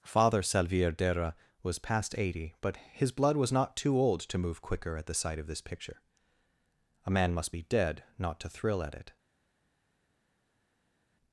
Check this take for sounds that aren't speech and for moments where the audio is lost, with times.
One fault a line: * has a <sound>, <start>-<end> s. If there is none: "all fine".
all fine